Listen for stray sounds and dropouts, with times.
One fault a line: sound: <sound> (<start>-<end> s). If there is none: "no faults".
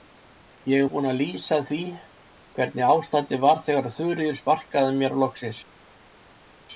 no faults